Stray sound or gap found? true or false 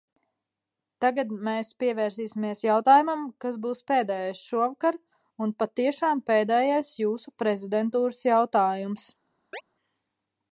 true